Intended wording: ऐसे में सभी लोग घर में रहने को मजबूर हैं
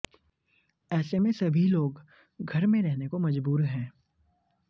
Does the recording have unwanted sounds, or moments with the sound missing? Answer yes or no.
no